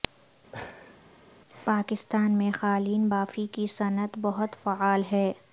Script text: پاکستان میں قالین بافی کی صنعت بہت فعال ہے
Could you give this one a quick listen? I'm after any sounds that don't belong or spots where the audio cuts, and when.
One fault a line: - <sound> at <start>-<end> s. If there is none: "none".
- laugh at 0.5-1.0 s